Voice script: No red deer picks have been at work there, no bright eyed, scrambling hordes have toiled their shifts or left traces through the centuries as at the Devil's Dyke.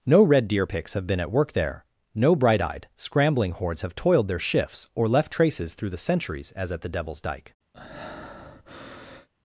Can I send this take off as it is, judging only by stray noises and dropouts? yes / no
no